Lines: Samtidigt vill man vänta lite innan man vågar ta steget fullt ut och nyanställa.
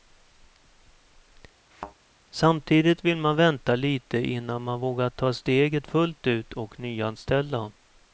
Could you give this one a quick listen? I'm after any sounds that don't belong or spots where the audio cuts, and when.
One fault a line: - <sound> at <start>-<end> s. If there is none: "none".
- thud at 1.7-2.0 s